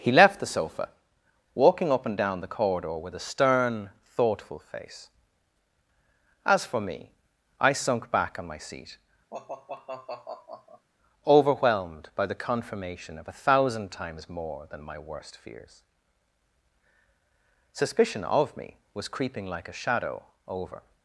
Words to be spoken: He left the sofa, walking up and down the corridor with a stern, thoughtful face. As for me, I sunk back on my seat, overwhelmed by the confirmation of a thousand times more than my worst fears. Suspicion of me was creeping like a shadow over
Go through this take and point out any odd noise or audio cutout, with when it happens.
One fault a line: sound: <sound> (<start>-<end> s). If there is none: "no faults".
sound: sigh (9.3-10.9 s)